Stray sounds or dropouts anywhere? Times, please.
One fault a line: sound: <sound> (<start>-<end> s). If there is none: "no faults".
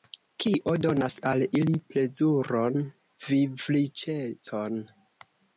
no faults